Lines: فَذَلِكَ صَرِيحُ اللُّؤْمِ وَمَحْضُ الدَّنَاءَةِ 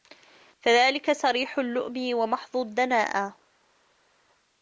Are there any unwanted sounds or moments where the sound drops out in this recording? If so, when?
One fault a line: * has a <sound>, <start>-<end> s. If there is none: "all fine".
all fine